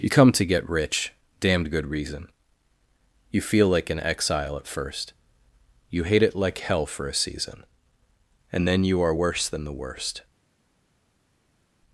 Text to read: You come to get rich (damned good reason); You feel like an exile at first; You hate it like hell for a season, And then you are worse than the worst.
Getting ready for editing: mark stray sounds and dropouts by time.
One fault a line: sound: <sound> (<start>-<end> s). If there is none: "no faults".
no faults